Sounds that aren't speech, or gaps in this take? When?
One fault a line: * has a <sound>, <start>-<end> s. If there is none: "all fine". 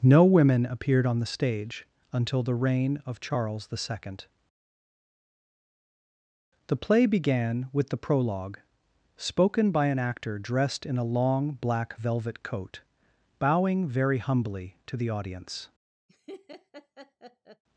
* has a laugh, 16.1-17.6 s